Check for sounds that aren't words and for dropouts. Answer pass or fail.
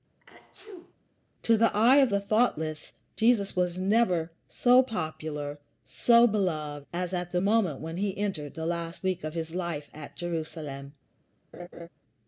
fail